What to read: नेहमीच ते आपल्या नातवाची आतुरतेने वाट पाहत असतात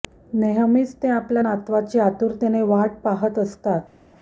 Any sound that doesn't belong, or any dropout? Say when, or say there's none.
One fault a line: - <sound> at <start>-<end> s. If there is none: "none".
none